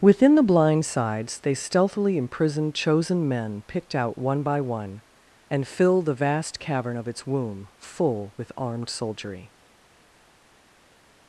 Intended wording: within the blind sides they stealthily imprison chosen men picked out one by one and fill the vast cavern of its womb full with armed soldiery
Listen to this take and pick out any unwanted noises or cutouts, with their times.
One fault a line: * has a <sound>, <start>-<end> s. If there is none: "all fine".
all fine